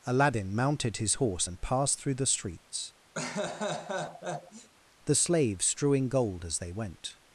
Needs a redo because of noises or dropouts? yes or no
yes